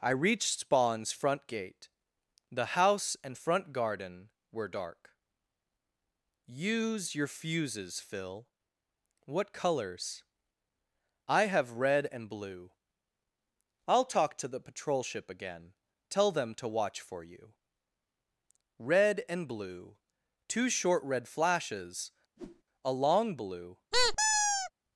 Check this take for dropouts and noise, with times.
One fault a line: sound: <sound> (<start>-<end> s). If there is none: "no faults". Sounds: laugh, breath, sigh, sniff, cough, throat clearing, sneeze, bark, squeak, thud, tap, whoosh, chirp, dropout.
sound: whoosh (22.4-22.6 s)
sound: squeak (23.9-24.7 s)